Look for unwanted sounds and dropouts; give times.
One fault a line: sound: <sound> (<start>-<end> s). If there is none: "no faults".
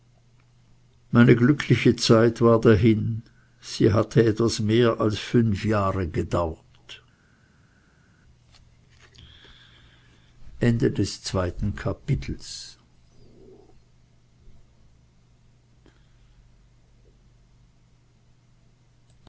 no faults